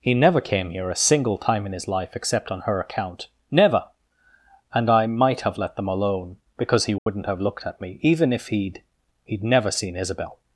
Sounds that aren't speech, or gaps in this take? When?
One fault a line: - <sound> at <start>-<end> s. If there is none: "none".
- dropout at 7.0-7.1 s